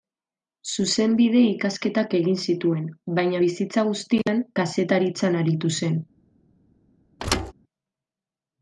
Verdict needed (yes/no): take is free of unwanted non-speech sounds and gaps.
no